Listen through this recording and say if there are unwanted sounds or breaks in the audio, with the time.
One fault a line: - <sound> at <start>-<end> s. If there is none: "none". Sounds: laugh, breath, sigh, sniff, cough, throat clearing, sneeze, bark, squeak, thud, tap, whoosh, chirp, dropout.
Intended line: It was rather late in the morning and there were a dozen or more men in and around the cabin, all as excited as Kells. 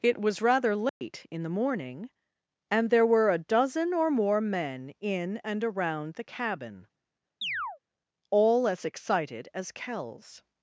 - dropout at 0.9-1.0 s
- chirp at 7.4-7.8 s